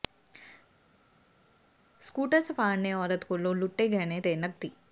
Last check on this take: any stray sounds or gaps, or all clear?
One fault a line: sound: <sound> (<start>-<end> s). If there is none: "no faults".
no faults